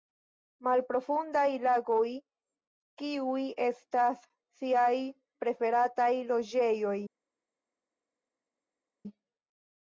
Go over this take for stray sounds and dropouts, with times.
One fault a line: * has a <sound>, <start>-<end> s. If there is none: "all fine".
all fine